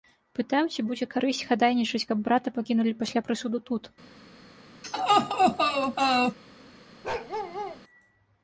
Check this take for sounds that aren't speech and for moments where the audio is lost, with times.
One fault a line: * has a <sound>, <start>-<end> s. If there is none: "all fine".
* has a laugh, 4.8-6.4 s
* has a bark, 7.0-7.8 s